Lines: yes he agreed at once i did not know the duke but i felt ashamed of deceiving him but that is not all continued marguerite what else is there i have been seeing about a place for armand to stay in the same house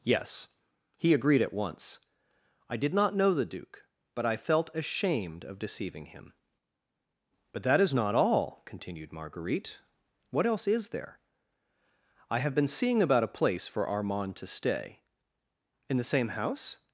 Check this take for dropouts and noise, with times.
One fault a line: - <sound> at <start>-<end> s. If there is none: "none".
none